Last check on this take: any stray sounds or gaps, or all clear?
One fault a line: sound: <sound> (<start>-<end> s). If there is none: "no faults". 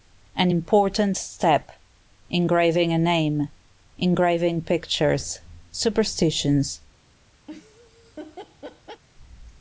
sound: laugh (7.5-9.0 s)